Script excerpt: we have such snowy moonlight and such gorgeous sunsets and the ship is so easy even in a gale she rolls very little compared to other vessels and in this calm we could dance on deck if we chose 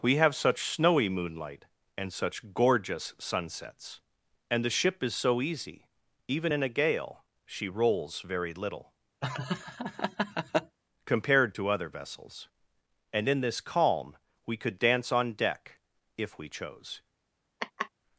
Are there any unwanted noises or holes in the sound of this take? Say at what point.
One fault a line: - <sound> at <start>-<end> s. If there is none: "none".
- laugh at 9.2-10.8 s
- laugh at 17.6-17.9 s